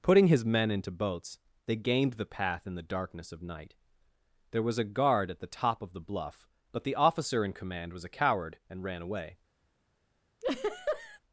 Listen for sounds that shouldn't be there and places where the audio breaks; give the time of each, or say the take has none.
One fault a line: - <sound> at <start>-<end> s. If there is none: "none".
- laugh at 10.4-11.2 s